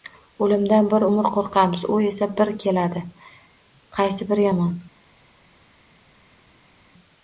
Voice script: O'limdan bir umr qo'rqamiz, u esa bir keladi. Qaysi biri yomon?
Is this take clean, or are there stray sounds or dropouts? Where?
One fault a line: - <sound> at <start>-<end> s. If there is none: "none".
none